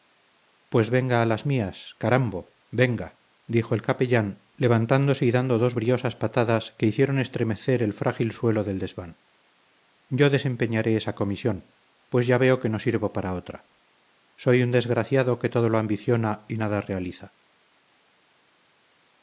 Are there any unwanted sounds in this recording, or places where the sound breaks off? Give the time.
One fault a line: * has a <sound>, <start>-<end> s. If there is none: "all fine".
all fine